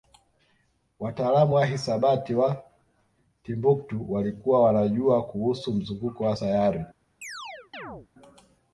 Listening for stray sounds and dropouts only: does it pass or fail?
fail